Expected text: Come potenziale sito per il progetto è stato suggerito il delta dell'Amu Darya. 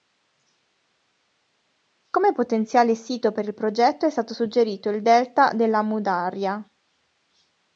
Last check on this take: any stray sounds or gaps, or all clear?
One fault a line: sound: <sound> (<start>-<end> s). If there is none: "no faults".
no faults